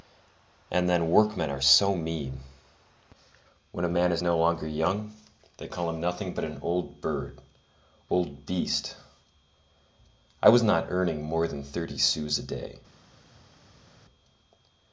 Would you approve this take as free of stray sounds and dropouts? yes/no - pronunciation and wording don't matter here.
yes